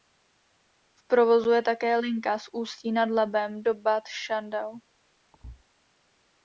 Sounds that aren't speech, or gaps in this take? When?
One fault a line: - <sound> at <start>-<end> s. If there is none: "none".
- thud at 5.3-5.6 s